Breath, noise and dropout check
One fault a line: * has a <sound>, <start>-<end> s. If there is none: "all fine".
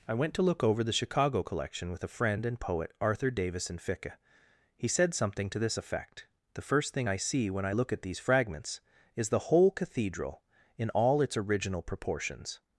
all fine